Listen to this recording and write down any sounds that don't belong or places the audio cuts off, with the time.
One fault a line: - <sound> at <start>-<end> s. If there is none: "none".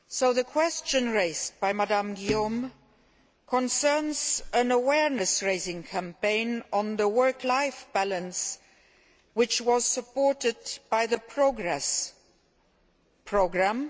none